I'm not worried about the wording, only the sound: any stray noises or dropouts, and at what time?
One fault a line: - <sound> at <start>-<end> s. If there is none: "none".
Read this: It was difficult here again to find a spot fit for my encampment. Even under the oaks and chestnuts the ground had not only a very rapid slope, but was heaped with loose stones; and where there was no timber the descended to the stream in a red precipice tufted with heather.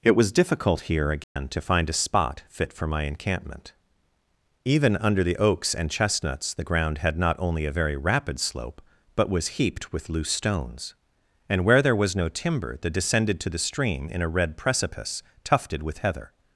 - dropout at 1.2-1.4 s